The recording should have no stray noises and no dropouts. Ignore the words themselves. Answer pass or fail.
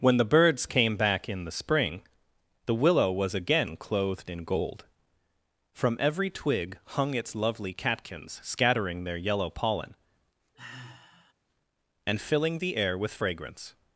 fail